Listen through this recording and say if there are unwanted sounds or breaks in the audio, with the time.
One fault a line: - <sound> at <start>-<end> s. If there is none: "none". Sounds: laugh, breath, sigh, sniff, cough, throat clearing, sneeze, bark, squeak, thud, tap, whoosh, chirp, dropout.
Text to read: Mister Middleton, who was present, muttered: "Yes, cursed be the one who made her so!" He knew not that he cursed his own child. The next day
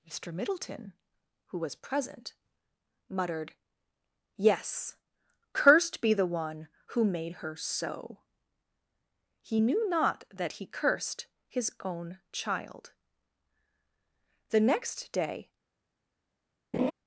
- laugh at 16.7-16.9 s